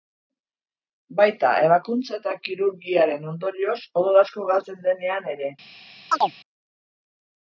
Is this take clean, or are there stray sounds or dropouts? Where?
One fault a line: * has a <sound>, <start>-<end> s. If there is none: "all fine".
* has a chirp, 6.1-6.3 s